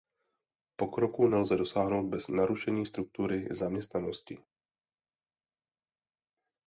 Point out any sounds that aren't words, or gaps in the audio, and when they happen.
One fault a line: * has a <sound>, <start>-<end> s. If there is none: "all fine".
all fine